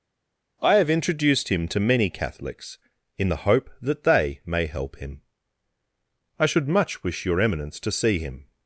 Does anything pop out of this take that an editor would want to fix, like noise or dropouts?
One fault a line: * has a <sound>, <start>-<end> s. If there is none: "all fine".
all fine